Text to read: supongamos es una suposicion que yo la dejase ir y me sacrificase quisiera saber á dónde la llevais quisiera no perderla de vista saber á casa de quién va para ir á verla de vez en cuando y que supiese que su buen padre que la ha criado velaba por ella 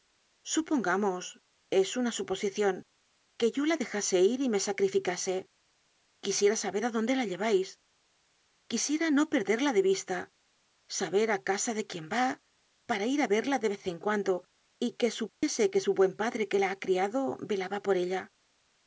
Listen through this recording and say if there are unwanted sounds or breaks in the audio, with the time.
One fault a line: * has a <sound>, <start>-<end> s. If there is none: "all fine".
* has a dropout, 15.3-15.4 s